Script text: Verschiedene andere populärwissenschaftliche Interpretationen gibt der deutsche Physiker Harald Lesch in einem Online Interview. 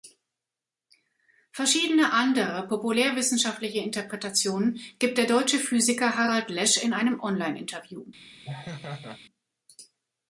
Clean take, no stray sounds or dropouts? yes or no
no